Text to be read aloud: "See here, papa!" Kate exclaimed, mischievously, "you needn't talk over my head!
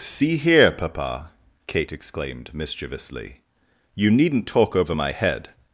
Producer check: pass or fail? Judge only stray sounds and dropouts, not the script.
pass